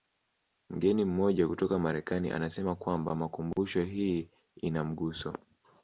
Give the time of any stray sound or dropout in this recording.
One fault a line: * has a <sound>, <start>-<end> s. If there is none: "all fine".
all fine